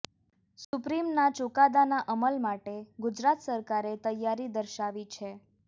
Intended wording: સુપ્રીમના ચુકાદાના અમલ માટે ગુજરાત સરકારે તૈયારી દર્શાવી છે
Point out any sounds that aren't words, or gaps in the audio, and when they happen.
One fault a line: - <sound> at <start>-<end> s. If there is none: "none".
- dropout at 0.6-0.7 s